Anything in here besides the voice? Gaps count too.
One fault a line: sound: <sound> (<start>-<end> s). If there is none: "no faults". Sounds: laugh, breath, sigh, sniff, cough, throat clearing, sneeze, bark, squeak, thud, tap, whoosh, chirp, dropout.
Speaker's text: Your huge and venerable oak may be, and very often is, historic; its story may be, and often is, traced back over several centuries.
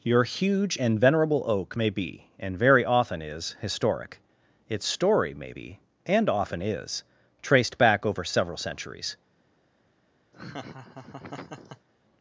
sound: laugh (10.3-11.9 s)